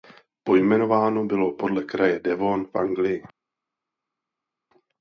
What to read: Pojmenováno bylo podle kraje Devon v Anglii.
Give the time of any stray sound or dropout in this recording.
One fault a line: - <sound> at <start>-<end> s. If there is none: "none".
none